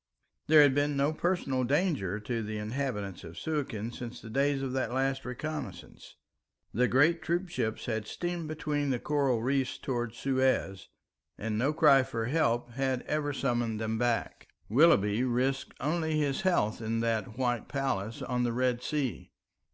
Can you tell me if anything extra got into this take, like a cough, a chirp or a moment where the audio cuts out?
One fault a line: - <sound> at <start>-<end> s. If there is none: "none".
none